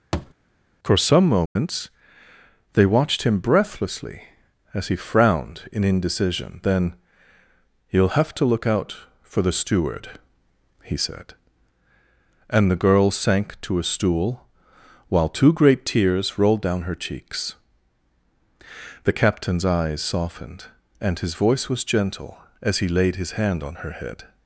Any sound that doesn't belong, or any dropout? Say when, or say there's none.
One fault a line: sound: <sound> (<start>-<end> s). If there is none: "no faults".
sound: thud (0.1-0.3 s)
sound: dropout (1.5-1.6 s)